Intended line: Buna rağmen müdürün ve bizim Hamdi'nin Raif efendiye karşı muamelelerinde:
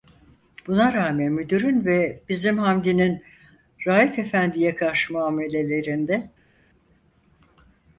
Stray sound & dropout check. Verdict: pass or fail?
pass